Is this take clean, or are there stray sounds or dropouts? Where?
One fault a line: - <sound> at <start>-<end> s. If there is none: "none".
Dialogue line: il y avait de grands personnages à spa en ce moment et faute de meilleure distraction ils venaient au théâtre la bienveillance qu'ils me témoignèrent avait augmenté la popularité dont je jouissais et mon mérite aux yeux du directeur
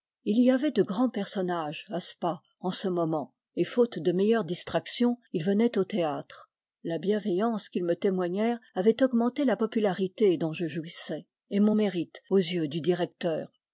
none